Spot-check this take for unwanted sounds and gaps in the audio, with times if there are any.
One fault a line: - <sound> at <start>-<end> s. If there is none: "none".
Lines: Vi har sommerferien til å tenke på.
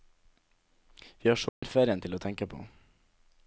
- dropout at 1.5-1.6 s